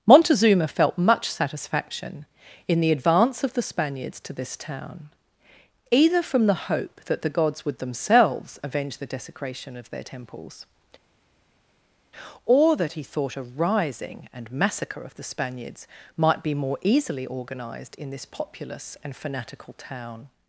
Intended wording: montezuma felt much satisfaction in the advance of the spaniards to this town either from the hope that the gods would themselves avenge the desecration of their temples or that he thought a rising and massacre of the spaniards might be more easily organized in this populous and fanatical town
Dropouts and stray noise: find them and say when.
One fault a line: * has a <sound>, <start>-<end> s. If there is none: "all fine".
all fine